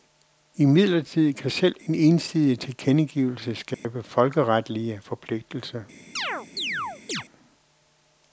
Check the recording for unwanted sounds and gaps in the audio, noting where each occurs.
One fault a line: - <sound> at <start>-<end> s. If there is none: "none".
- dropout at 3.7-3.8 s
- chirp at 6.2-7.2 s